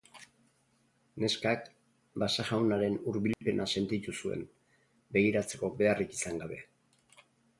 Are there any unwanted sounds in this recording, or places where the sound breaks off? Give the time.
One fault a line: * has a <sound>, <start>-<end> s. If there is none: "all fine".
* has a dropout, 3.3-3.4 s